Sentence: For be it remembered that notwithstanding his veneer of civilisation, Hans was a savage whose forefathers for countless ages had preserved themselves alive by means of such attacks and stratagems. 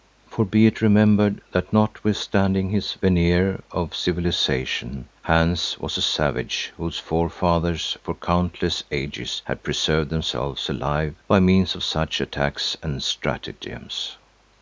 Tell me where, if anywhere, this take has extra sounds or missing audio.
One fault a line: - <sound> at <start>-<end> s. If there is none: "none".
none